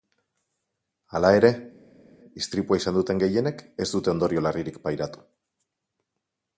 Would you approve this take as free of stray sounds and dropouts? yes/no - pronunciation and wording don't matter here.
yes